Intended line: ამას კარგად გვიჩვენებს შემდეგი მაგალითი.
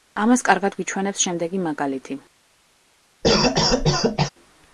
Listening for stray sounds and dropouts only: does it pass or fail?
fail